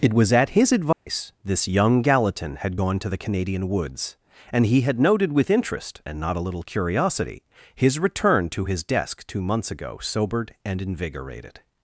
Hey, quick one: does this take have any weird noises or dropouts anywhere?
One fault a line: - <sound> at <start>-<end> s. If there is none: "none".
- dropout at 0.9-1.1 s